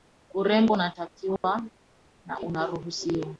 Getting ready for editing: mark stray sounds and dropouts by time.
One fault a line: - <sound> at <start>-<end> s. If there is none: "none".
- dropout at 1.4-1.4 s